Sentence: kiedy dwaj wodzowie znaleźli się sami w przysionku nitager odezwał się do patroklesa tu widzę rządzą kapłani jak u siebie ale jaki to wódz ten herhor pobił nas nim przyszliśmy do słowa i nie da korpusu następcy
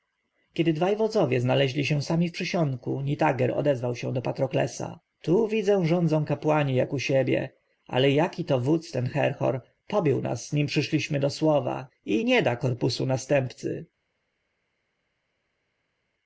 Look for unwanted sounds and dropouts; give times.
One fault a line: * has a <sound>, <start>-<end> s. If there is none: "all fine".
all fine